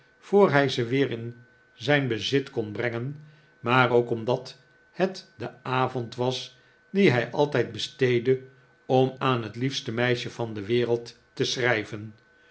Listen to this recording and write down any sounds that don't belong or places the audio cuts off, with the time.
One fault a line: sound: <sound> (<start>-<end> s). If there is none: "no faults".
no faults